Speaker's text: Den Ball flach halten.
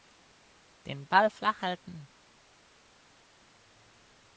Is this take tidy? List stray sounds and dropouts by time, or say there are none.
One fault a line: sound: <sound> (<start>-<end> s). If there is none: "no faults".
no faults